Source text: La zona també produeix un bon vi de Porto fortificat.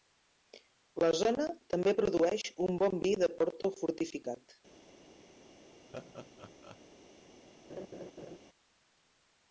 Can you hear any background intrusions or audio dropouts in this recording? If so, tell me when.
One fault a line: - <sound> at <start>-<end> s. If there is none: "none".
- laugh at 5.9-6.8 s
- laugh at 7.7-8.4 s